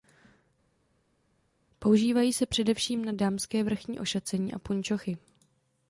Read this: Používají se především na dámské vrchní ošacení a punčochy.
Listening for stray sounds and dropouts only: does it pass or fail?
pass